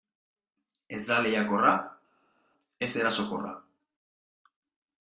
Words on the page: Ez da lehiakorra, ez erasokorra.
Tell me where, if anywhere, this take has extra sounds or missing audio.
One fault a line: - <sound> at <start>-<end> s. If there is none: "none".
none